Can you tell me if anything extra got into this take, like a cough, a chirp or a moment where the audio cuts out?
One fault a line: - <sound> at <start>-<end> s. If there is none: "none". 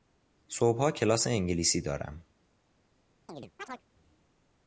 - chirp at 3.3-3.8 s